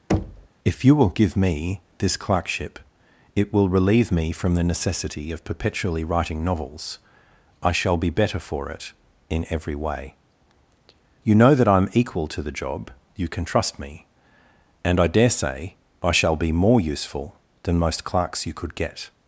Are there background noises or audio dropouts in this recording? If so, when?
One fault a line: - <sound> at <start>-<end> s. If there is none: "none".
- thud at 0.1-0.5 s